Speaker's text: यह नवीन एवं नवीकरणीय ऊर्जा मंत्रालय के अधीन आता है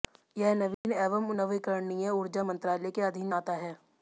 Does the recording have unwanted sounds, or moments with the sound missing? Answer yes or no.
yes